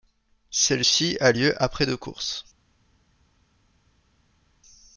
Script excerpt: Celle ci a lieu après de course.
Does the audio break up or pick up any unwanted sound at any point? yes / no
no